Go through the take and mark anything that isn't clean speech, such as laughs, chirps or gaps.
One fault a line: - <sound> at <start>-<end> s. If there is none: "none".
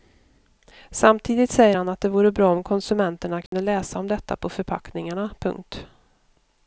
- dropout at 3.5-3.5 s